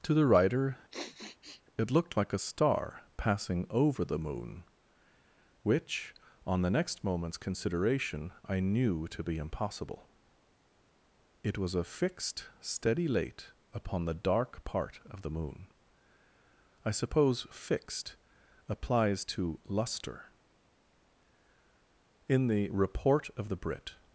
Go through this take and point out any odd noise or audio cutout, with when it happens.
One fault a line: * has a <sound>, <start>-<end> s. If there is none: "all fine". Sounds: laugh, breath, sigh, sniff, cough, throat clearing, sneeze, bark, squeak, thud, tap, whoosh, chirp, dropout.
* has a sniff, 0.9-1.6 s